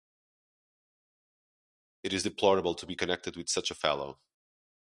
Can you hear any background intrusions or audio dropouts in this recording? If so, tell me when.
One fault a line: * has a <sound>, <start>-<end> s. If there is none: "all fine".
all fine